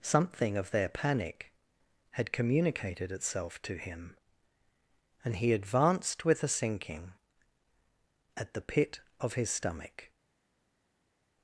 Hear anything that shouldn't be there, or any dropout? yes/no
no